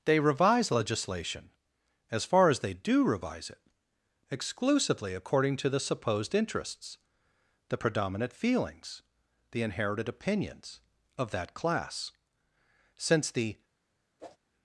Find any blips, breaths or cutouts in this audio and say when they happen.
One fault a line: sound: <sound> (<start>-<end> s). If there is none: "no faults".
sound: whoosh (14.2-14.4 s)